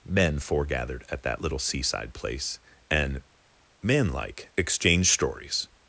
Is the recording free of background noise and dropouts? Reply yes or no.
yes